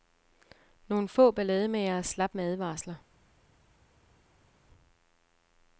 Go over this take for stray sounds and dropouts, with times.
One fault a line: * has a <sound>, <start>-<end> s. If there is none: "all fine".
all fine